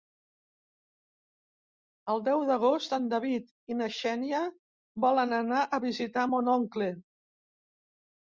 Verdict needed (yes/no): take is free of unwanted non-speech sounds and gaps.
yes